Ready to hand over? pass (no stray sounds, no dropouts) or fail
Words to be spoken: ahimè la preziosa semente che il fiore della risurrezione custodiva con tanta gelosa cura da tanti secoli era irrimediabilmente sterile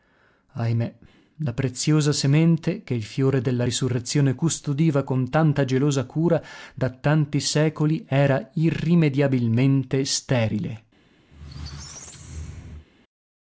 fail